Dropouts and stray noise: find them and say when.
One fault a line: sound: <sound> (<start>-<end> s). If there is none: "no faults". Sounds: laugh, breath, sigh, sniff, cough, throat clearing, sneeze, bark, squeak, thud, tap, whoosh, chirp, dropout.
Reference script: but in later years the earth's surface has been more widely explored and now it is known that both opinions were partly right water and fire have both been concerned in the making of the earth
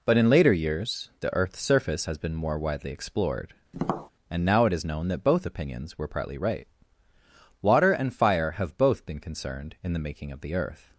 sound: tap (3.7-4.1 s)